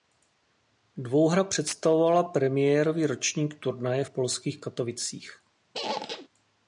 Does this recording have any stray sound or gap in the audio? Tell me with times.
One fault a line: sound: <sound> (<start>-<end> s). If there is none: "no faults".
sound: squeak (5.7-6.3 s)